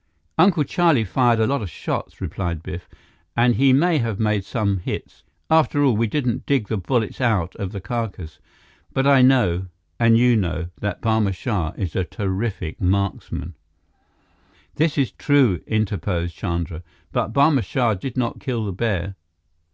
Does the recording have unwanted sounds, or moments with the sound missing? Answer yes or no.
no